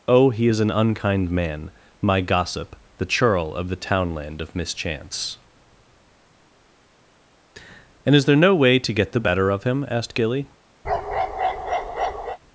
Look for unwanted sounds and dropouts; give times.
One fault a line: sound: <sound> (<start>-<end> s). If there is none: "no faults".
sound: bark (10.8-12.4 s)